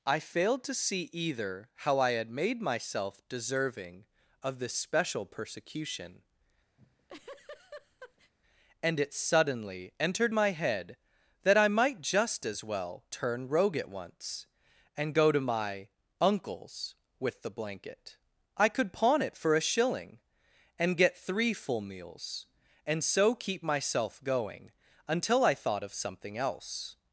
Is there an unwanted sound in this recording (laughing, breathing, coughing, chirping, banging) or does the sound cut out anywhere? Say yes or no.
yes